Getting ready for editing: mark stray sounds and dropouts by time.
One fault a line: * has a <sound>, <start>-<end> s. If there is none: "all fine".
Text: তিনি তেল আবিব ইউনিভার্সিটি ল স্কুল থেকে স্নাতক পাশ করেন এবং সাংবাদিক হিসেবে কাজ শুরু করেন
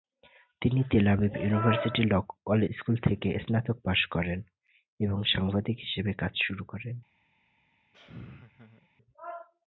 * has a laugh, 7.9-8.9 s